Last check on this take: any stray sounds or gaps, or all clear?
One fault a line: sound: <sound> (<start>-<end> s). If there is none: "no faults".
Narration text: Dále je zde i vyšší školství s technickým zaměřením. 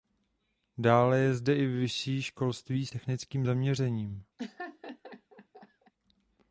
sound: laugh (4.4-5.9 s)